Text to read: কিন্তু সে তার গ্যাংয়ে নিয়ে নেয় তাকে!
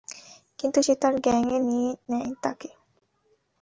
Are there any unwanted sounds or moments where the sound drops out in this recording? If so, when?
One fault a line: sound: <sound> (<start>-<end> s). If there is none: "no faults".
no faults